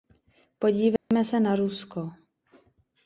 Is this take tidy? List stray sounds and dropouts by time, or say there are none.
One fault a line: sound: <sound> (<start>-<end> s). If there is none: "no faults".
sound: dropout (1.0-1.1 s)